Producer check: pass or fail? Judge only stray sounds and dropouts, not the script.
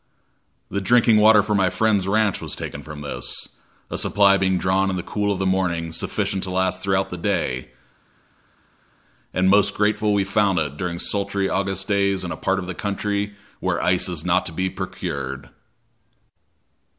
pass